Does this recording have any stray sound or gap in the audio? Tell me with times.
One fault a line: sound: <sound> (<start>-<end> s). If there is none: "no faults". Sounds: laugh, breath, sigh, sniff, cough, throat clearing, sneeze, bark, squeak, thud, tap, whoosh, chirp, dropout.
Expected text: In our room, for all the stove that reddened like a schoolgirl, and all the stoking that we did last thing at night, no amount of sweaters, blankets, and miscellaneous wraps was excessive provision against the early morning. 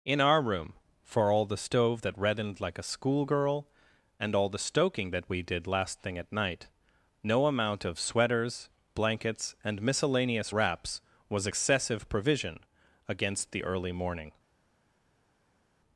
no faults